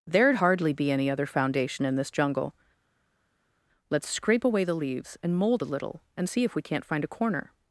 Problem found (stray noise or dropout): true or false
false